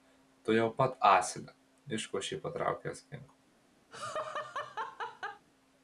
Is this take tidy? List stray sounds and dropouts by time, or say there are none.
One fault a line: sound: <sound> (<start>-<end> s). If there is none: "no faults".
sound: laugh (3.9-5.5 s)